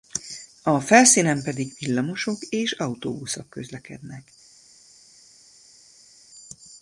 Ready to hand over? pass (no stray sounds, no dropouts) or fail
pass